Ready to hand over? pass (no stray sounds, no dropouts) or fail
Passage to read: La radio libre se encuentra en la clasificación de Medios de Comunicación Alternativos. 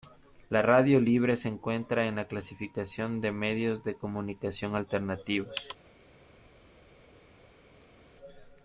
pass